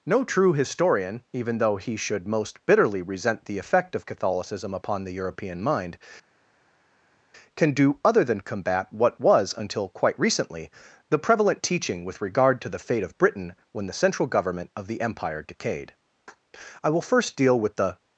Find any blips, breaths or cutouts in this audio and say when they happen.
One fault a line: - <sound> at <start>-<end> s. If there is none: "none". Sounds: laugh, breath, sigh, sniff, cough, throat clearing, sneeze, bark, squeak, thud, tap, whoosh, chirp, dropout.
none